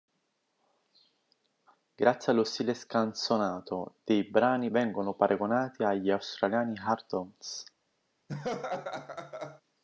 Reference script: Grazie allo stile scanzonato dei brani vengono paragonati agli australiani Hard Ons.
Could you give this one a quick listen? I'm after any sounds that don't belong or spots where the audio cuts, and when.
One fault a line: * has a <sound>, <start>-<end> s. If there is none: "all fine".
* has a laugh, 8.3-9.6 s